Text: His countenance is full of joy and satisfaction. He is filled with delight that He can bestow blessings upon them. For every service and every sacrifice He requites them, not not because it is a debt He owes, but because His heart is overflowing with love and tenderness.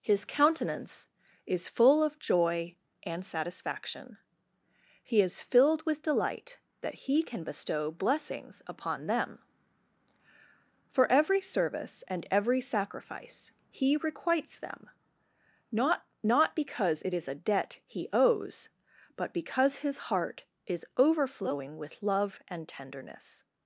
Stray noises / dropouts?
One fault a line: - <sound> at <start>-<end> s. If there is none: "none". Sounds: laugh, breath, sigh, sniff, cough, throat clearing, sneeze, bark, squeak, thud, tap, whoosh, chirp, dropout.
none